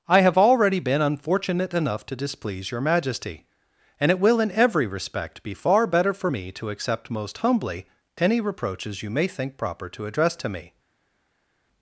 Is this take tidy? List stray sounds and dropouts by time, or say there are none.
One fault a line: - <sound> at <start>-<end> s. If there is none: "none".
none